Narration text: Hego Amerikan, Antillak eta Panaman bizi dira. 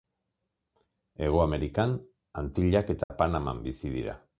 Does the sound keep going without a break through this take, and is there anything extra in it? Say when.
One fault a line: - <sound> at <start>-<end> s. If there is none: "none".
- dropout at 3.0-3.1 s